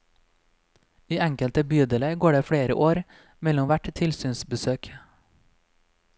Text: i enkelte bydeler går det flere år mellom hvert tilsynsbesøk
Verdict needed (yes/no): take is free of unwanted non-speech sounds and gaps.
yes